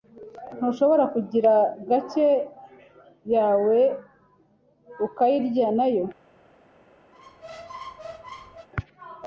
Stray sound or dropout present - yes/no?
yes